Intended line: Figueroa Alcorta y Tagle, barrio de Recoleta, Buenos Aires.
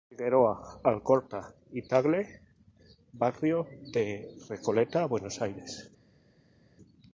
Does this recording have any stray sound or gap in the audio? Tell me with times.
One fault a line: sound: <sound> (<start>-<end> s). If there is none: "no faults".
no faults